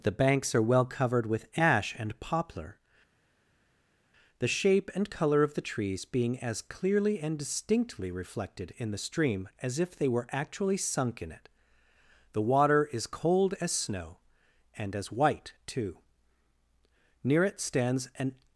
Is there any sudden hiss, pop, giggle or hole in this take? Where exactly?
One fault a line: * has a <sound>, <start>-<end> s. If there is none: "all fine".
all fine